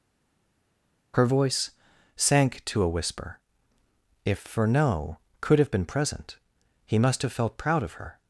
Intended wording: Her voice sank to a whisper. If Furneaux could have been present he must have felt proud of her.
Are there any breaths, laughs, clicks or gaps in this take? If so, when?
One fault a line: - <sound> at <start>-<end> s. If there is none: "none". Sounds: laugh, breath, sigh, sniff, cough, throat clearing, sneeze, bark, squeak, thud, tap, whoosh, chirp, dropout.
none